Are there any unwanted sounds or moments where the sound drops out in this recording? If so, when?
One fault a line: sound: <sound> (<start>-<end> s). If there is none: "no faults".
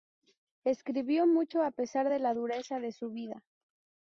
no faults